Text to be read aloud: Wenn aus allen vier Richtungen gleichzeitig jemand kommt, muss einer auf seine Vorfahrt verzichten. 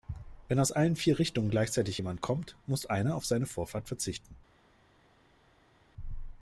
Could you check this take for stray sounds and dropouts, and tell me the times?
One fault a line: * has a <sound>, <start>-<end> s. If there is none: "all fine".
all fine